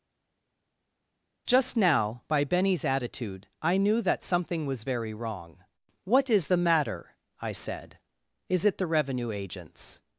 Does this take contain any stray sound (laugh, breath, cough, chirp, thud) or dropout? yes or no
no